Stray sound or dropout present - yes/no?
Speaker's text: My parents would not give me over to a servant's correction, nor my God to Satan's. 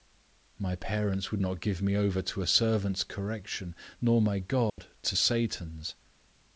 yes